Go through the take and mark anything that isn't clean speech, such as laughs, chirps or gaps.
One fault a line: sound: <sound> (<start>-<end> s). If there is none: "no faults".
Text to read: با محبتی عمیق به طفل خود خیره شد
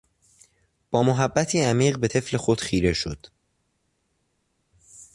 no faults